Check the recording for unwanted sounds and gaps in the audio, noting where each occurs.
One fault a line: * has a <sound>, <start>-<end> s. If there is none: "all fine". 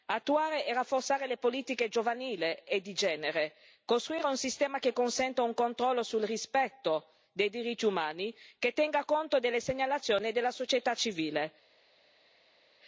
all fine